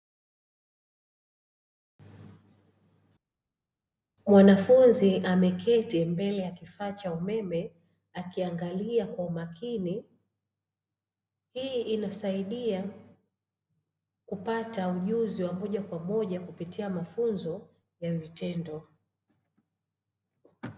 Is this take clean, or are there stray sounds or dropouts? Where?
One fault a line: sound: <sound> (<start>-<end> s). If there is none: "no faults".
no faults